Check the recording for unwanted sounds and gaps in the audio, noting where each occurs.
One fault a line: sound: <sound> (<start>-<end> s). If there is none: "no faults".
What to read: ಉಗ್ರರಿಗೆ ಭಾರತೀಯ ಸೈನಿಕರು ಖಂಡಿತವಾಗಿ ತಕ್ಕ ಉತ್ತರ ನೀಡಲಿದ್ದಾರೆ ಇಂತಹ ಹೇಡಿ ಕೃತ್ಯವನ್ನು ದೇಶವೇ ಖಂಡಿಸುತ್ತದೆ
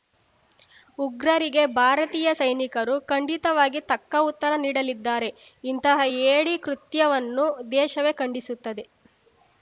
no faults